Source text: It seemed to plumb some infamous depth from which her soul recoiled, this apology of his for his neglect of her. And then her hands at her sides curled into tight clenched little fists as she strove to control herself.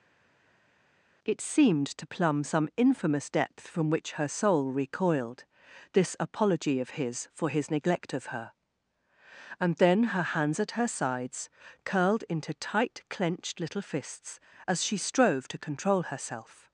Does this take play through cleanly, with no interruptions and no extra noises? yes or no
yes